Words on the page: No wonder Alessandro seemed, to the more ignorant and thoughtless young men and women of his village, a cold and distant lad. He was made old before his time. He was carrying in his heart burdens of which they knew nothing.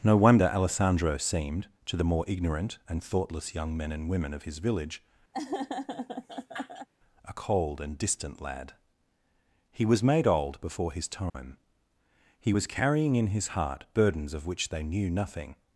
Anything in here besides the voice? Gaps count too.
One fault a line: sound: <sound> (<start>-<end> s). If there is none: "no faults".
sound: laugh (5.3-6.9 s)
sound: dropout (11.3-11.3 s)